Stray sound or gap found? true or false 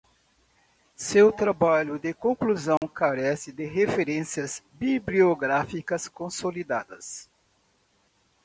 true